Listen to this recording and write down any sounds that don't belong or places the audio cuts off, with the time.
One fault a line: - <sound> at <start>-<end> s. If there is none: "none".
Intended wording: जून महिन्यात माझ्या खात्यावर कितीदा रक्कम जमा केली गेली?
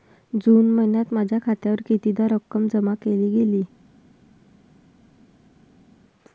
none